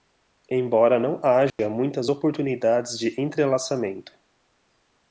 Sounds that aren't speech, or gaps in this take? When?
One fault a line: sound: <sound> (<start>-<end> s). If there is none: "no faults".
sound: dropout (1.5-1.6 s)